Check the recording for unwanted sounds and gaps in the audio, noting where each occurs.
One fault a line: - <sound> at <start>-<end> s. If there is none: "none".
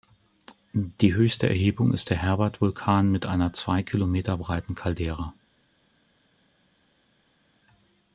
none